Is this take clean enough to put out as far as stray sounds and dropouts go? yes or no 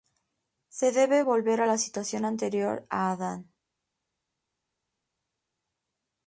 yes